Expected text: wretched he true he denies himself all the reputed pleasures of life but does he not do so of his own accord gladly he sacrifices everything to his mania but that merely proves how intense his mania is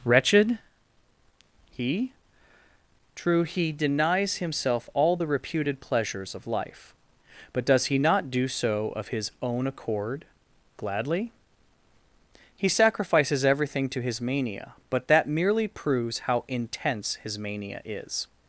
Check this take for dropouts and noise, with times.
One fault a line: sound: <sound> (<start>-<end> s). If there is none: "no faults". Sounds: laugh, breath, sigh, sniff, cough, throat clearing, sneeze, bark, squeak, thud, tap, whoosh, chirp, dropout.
no faults